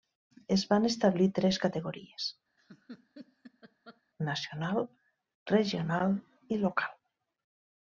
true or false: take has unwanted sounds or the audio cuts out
true